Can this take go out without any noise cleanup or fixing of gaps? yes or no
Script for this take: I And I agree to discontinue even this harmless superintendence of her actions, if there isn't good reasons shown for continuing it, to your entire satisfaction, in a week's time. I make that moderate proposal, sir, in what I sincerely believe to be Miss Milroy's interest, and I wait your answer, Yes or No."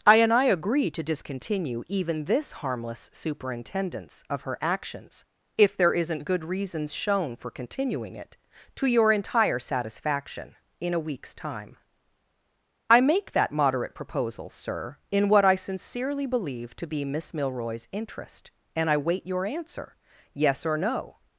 yes